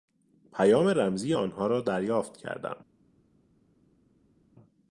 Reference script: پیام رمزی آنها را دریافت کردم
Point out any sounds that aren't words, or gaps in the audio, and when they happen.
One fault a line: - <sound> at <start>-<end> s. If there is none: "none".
none